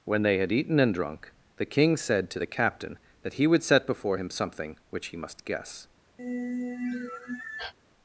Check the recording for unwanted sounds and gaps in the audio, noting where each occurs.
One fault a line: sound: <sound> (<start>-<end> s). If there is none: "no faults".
sound: sigh (6.2-7.7 s)